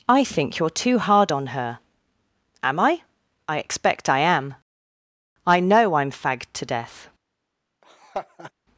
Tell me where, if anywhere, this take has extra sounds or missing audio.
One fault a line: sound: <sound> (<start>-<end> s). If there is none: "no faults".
sound: laugh (7.8-8.5 s)